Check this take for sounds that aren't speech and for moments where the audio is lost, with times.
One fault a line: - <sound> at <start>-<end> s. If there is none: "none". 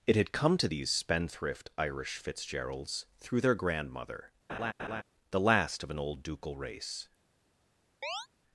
- laugh at 4.5-5.0 s
- chirp at 8.0-8.3 s